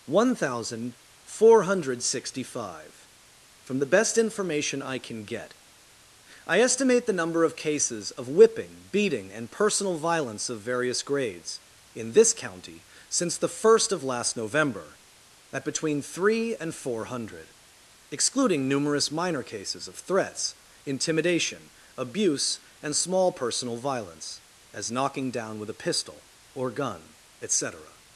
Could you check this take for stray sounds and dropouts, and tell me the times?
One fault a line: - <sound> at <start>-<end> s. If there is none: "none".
none